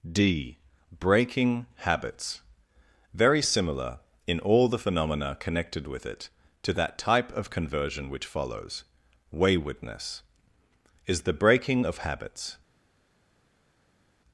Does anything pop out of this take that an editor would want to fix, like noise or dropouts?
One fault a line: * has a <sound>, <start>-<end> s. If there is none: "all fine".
all fine